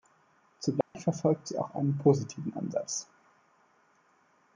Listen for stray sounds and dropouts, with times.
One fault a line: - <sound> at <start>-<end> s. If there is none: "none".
- dropout at 0.8-0.9 s